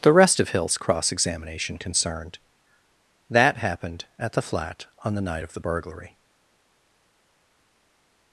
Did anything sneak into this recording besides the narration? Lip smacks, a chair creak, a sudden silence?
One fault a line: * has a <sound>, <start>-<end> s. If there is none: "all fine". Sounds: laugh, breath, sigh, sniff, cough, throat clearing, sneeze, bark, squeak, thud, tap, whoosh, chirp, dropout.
all fine